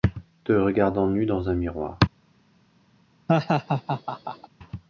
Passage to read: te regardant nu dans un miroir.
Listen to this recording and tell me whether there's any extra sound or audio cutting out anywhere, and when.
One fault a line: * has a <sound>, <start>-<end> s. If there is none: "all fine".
* has a laugh, 3.3-4.5 s